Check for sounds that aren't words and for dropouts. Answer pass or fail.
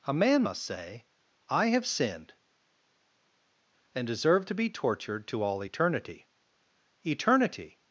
pass